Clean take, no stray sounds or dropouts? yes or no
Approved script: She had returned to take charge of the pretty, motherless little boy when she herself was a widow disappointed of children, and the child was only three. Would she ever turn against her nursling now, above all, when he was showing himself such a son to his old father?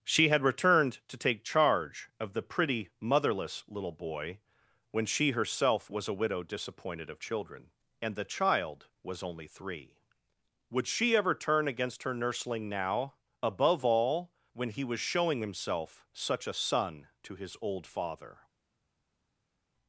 yes